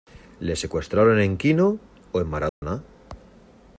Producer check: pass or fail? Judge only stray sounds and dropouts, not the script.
fail